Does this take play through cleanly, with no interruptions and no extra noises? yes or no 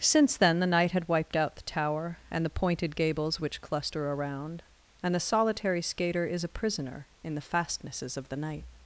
yes